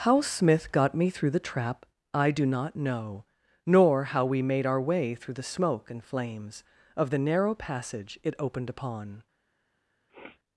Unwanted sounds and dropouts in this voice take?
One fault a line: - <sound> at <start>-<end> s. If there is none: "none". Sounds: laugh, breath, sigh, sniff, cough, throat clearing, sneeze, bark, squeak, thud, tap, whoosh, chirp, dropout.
- sniff at 10.1-10.4 s